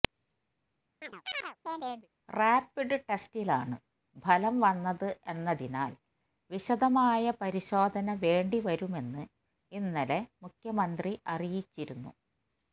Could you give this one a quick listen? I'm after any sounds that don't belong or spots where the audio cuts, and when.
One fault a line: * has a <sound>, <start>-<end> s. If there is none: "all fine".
* has a chirp, 1.0-2.1 s